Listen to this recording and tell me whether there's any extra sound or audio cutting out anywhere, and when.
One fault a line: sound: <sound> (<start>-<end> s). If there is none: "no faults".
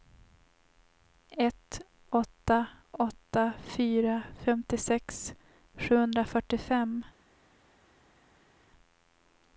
no faults